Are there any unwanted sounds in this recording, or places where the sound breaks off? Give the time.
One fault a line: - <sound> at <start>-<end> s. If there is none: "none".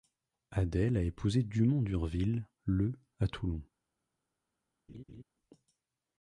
- laugh at 4.9-5.2 s